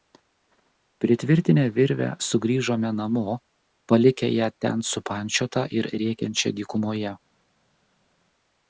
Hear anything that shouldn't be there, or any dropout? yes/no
no